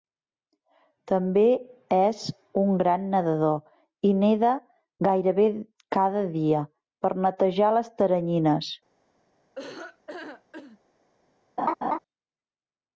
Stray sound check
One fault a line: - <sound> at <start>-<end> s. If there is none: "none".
- laugh at 9.5-10.8 s
- laugh at 11.6-12.0 s